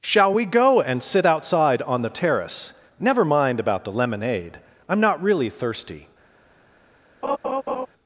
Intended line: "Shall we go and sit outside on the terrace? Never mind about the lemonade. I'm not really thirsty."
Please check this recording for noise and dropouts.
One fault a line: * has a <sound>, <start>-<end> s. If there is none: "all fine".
* has a laugh, 7.2-7.9 s